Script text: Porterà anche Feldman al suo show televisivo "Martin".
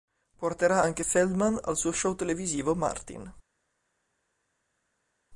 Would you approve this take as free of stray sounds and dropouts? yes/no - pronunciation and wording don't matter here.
yes